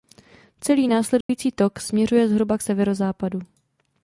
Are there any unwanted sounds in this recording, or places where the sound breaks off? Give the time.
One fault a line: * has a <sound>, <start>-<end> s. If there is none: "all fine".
* has a dropout, 1.2-1.3 s